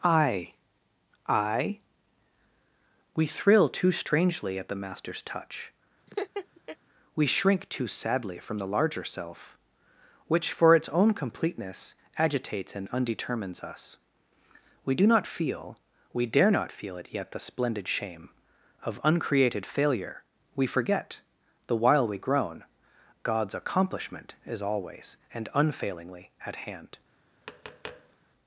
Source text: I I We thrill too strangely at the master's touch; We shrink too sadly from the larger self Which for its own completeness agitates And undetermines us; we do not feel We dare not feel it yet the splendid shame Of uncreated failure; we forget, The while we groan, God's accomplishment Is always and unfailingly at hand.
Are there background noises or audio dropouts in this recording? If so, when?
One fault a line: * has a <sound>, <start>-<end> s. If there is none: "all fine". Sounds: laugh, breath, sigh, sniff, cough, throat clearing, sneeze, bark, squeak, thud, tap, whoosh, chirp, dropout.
* has a laugh, 6.1-6.8 s
* has a tap, 27.4-28.2 s